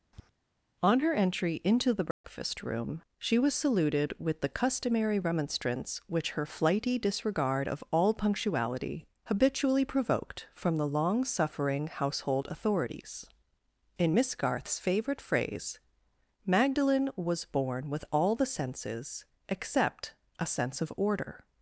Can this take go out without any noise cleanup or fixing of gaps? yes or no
no